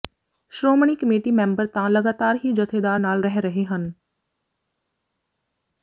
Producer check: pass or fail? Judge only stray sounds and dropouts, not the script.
pass